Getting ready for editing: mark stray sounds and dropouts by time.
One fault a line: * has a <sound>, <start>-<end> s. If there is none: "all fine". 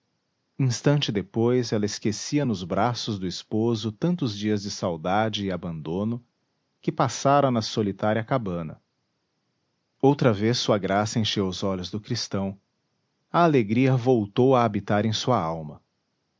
all fine